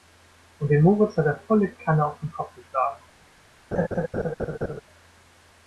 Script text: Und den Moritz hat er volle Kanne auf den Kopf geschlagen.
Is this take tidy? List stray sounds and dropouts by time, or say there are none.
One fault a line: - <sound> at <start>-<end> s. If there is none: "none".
- laugh at 3.7-4.8 s